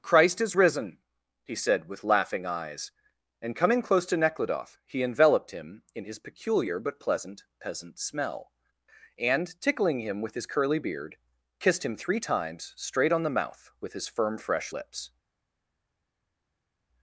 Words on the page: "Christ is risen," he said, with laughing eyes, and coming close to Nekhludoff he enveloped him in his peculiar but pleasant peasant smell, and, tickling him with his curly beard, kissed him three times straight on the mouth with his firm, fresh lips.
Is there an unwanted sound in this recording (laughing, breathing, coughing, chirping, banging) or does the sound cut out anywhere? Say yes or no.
no